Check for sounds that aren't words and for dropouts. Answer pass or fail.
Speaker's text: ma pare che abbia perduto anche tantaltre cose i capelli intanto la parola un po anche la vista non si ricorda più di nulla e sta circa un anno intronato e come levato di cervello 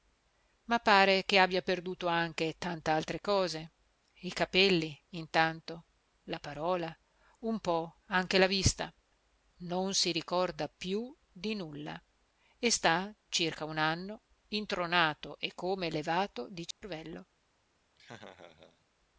fail